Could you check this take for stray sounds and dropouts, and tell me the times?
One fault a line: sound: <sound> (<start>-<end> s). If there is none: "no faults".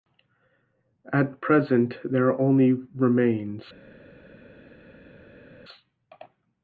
no faults